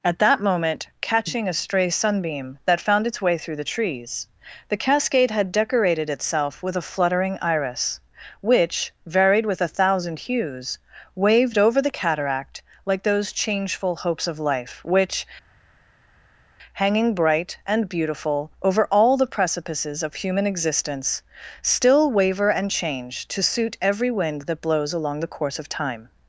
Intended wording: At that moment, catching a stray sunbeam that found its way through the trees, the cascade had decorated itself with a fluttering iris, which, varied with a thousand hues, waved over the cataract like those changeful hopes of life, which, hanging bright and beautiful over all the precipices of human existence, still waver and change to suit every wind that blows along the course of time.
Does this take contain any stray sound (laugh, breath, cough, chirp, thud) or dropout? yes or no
no